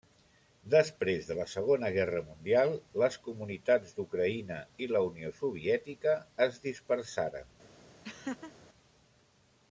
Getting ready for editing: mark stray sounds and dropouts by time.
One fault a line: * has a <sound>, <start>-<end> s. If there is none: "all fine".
* has a laugh, 8.0-8.5 s